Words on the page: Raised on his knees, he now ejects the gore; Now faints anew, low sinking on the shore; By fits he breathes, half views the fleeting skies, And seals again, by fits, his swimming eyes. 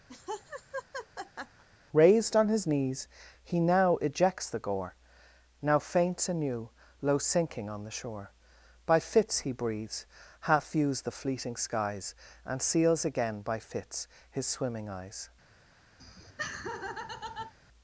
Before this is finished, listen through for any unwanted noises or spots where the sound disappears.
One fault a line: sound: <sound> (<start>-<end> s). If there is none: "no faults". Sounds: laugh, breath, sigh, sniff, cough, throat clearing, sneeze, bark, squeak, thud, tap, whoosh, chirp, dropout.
sound: laugh (0.1-1.6 s)
sound: laugh (16.0-17.5 s)